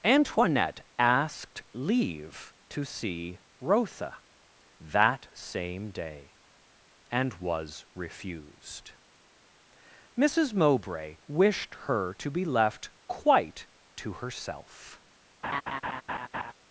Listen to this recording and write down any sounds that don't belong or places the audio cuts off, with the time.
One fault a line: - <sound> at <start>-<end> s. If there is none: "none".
- laugh at 15.4-16.5 s